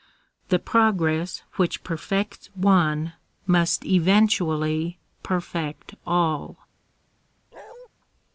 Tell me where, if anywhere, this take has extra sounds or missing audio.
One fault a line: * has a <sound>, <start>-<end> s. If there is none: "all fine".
* has a bark, 7.5-7.9 s